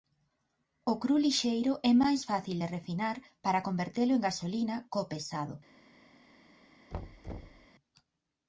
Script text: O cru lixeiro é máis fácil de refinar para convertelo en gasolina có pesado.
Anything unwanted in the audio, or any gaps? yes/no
yes